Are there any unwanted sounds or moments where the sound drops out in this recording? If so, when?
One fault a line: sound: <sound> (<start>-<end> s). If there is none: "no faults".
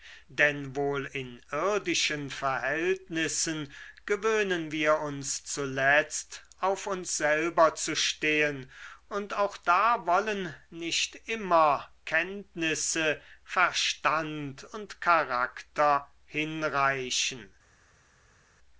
no faults